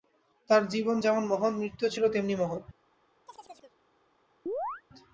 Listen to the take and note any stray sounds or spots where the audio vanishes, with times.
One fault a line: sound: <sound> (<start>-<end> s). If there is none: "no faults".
sound: chirp (3.3-3.8 s)
sound: chirp (4.5-4.8 s)